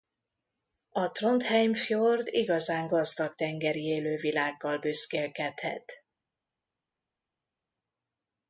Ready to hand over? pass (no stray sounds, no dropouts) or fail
pass